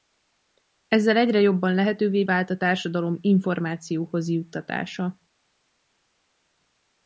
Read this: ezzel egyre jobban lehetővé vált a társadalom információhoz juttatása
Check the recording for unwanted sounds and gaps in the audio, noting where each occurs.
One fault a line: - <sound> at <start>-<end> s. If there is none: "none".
none